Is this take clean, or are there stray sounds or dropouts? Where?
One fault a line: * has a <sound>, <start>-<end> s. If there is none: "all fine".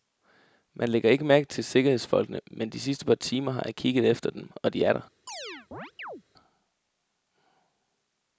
* has a chirp, 5.3-6.2 s